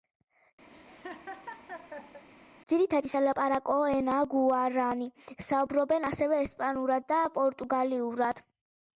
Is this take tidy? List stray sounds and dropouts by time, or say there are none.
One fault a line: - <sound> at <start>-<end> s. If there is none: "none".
- laugh at 0.7-2.2 s